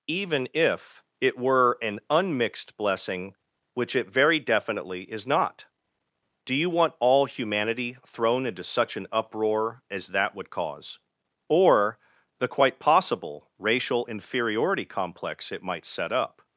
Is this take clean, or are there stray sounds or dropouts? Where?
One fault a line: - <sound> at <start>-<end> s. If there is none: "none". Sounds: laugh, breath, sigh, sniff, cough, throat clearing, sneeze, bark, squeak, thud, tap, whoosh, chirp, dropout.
none